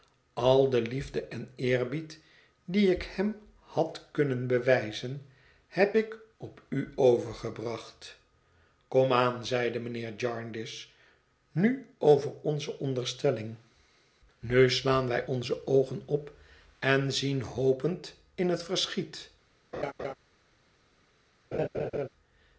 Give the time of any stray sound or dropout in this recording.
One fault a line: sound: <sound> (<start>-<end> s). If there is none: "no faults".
sound: laugh (19.7-20.1 s)
sound: laugh (21.5-22.1 s)